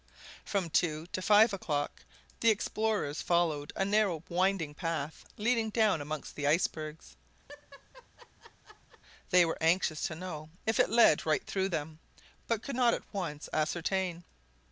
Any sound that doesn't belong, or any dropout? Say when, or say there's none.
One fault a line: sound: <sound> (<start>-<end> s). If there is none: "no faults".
sound: laugh (7.5-9.0 s)